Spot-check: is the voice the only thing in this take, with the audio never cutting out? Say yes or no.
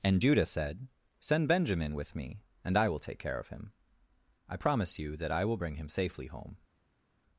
yes